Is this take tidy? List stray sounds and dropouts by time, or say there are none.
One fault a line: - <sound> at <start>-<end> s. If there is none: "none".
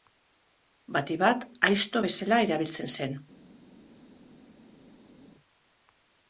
none